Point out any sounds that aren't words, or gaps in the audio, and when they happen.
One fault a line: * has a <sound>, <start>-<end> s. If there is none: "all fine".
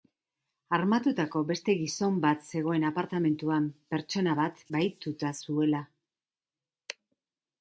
all fine